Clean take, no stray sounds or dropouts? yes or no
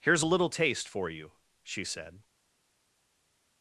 yes